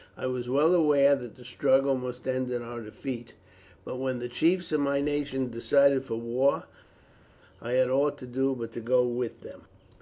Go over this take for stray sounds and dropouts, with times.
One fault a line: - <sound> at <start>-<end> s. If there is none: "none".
none